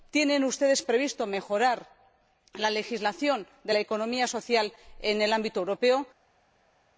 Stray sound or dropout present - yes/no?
no